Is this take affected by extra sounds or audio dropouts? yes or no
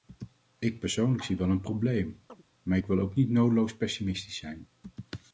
yes